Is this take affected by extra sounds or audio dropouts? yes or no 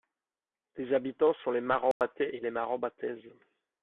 yes